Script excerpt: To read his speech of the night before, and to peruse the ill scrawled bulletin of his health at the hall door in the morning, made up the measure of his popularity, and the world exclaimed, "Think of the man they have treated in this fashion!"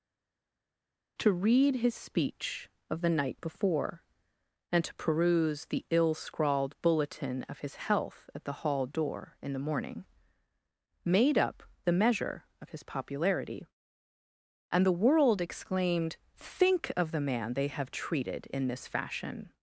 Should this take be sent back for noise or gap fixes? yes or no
no